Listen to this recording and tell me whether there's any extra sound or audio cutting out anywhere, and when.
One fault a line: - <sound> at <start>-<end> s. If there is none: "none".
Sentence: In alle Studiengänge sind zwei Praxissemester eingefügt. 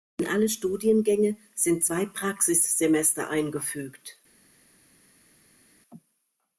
none